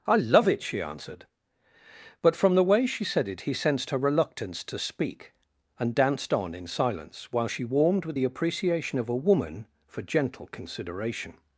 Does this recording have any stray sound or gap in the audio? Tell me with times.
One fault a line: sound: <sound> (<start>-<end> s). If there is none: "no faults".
no faults